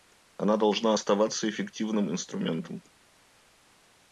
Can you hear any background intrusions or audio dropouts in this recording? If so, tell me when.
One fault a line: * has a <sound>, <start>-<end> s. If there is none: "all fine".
all fine